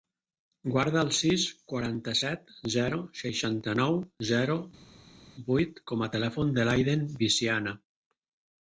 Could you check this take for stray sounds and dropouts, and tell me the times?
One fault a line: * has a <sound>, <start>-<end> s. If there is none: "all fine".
all fine